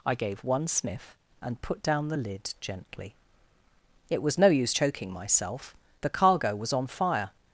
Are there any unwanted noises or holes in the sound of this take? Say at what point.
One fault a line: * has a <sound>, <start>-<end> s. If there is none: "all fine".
all fine